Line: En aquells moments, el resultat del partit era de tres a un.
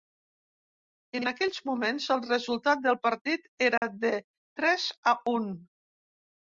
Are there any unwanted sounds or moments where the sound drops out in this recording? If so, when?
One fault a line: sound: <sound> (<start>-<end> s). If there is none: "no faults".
sound: dropout (3.8-3.8 s)